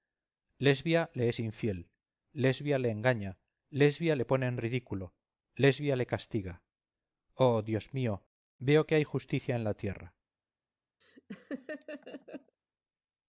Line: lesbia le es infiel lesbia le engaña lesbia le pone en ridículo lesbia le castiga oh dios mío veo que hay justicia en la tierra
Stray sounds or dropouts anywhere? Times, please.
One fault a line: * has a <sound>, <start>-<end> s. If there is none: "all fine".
* has a laugh, 11.0-12.6 s